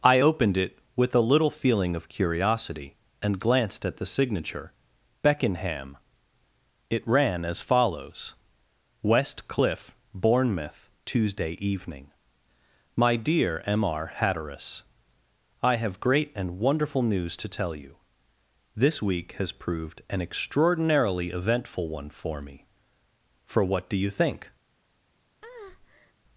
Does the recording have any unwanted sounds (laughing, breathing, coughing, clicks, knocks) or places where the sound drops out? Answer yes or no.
yes